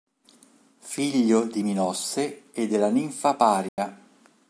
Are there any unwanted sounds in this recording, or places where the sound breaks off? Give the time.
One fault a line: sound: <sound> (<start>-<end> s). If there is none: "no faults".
sound: dropout (3.7-3.8 s)